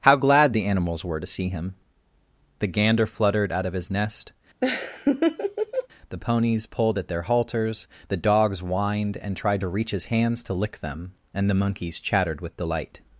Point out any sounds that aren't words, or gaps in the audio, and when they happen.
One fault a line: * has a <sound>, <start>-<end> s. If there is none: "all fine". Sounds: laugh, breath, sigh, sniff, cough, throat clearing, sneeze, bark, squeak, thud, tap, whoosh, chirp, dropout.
* has a laugh, 4.6-5.9 s